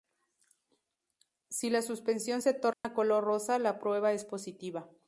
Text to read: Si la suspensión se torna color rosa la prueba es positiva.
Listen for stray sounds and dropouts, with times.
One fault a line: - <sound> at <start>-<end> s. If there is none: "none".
- dropout at 2.7-2.8 s